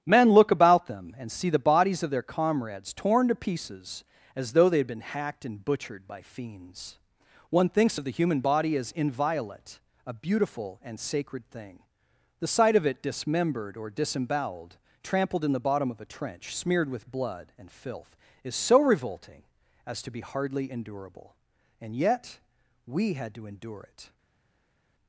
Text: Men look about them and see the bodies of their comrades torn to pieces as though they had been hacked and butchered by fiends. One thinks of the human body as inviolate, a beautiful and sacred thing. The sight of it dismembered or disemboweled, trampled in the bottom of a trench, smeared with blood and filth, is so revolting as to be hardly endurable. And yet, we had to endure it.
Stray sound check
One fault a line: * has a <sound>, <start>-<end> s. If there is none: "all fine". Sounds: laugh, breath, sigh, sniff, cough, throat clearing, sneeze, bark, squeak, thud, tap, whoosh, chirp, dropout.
all fine